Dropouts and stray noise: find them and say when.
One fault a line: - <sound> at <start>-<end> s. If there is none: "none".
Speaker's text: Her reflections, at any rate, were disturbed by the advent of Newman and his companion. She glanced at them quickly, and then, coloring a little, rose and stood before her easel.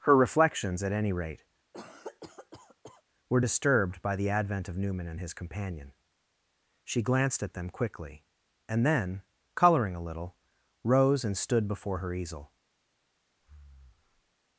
- cough at 1.7-3.0 s
- breath at 13.4-14.3 s